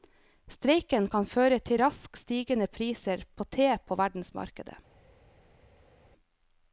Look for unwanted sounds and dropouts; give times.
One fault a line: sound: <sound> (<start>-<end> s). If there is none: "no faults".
no faults